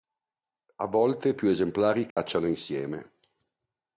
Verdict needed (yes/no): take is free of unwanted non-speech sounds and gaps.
no